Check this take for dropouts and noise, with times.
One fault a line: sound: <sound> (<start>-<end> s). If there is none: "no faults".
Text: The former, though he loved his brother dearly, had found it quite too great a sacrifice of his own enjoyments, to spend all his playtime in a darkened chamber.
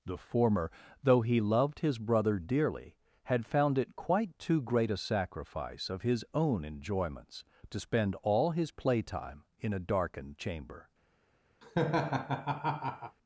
sound: laugh (11.6-13.2 s)